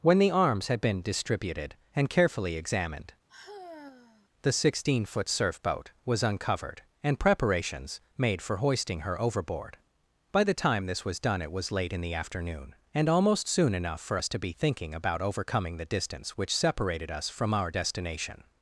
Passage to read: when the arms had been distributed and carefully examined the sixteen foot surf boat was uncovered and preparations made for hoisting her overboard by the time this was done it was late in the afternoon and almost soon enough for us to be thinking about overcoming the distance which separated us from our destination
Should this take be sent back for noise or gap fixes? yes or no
yes